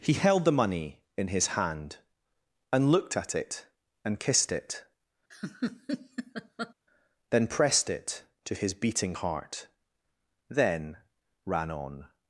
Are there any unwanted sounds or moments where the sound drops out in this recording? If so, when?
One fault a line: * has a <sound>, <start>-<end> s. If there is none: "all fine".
* has a laugh, 5.3-6.7 s